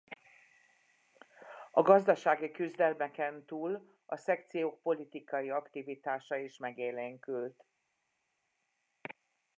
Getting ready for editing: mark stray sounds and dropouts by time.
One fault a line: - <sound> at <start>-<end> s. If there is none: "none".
none